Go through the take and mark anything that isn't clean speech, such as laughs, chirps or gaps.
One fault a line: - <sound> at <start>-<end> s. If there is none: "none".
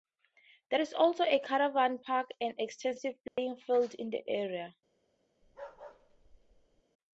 - dropout at 3.3-3.4 s
- bark at 5.4-6.8 s